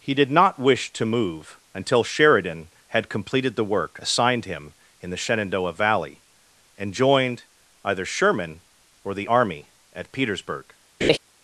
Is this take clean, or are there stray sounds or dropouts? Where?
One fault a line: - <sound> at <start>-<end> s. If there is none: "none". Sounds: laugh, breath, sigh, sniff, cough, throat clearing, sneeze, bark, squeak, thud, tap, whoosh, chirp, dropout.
- laugh at 11.0-11.2 s